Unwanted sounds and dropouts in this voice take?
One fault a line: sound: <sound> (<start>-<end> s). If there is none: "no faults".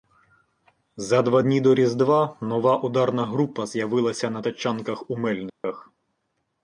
sound: dropout (5.5-5.6 s)